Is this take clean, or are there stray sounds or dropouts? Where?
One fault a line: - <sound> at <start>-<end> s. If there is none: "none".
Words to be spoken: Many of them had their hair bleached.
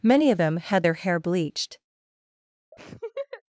- laugh at 2.7-3.4 s